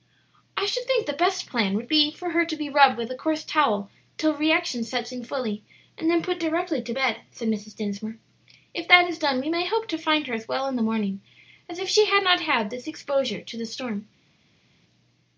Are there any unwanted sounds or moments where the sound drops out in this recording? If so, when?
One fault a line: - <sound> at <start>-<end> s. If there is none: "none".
none